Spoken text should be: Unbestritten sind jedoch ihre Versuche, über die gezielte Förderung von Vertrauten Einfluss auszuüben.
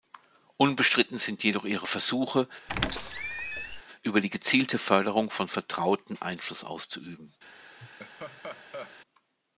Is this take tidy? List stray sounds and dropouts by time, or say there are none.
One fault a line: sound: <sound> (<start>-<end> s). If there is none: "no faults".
sound: squeak (2.7-3.8 s)
sound: laugh (7.8-9.0 s)